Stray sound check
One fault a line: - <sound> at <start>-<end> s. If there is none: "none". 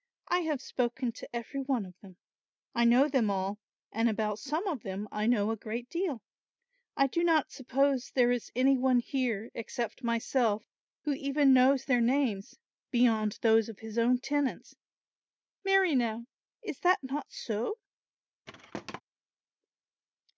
- thud at 18.5-19.0 s